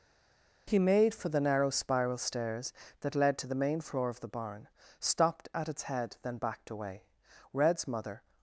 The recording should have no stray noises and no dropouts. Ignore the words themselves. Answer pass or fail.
pass